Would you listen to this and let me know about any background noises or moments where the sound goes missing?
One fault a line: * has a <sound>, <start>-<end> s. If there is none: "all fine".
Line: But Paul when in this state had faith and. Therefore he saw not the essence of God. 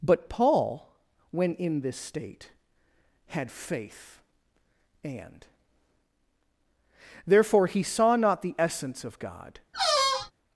* has a squeak, 9.7-10.3 s